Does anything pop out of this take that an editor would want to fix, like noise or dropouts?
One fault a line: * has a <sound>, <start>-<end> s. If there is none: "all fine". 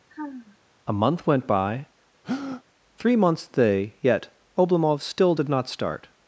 * has a sigh, 0.1-0.6 s
* has a breath, 2.2-2.6 s